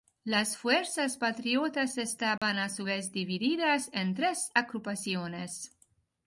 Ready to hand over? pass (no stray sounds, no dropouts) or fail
fail